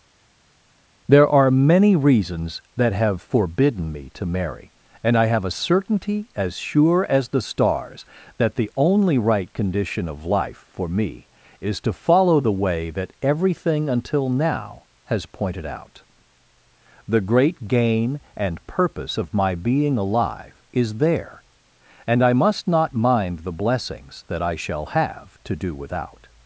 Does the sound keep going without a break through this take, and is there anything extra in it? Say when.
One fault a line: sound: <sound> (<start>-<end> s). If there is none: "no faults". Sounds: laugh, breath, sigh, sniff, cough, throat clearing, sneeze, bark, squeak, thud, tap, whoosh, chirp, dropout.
no faults